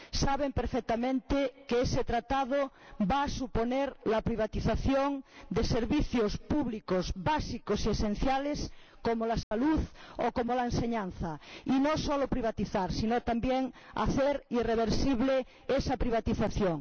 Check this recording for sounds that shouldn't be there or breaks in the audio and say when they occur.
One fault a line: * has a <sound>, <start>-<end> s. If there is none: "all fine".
* has a dropout, 9.4-9.5 s